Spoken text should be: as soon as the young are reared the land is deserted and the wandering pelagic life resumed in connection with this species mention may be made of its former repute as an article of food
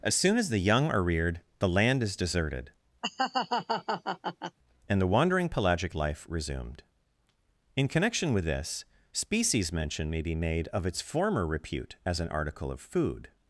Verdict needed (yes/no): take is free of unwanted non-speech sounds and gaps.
no